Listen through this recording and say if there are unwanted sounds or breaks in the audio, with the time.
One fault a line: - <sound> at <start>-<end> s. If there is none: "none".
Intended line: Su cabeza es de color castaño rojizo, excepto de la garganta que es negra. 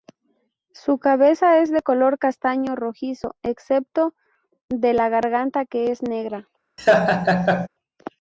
- laugh at 6.8-7.7 s